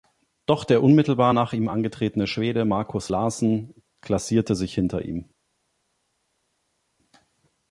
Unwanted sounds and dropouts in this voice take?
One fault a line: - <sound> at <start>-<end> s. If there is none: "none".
none